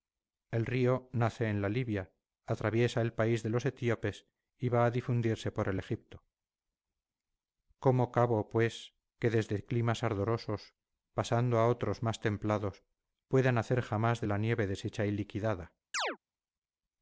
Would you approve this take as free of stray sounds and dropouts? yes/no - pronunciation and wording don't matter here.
no